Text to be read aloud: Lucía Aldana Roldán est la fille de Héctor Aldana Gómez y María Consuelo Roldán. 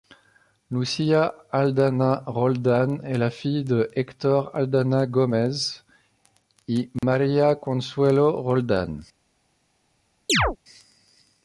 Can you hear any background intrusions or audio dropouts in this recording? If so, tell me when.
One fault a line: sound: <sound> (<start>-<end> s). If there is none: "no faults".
sound: dropout (7.0-7.0 s)
sound: chirp (10.3-10.6 s)